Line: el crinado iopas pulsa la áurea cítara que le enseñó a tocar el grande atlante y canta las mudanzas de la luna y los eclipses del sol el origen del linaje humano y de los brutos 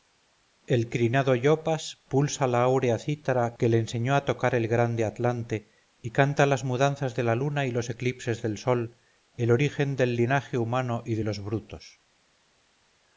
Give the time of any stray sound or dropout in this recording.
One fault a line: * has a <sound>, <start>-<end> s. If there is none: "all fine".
all fine